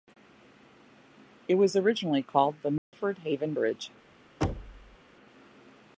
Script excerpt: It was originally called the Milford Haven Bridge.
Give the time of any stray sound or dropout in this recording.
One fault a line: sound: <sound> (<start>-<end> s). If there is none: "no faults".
sound: dropout (2.8-2.9 s)
sound: thud (4.4-5.0 s)